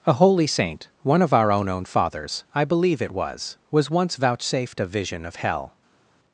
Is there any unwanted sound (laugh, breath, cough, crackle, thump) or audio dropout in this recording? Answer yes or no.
no